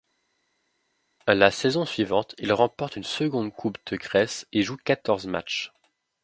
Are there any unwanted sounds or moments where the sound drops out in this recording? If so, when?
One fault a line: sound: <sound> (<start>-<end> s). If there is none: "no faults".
no faults